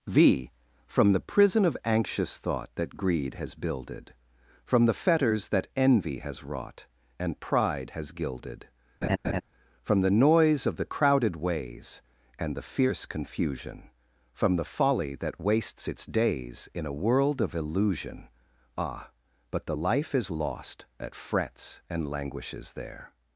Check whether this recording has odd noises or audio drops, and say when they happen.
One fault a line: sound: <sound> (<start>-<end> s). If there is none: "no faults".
sound: laugh (9.0-9.4 s)